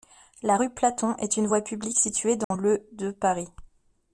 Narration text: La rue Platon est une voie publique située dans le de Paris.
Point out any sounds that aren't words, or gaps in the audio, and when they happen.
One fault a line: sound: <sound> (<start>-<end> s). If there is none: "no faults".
sound: dropout (2.4-2.5 s)